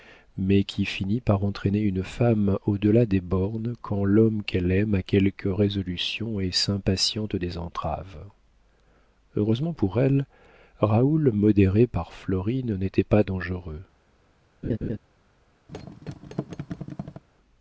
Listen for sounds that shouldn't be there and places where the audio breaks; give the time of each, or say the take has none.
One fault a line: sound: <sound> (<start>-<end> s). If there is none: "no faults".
sound: laugh (14.6-15.0 s)
sound: thud (15.7-17.2 s)